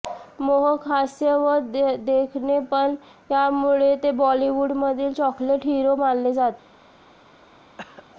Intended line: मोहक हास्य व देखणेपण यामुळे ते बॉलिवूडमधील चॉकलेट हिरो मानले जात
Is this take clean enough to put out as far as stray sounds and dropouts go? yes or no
no